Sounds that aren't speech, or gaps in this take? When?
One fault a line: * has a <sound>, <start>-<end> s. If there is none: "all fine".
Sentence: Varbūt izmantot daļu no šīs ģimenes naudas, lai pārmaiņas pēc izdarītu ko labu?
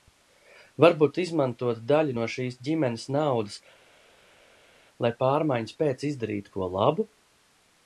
all fine